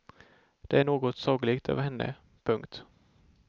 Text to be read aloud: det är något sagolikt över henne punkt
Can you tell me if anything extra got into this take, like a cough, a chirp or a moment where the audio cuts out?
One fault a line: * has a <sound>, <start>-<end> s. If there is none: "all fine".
all fine